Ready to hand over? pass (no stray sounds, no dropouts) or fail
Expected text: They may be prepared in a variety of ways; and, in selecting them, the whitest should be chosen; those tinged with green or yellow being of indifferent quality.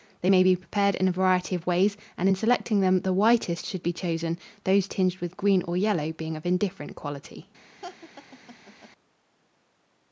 fail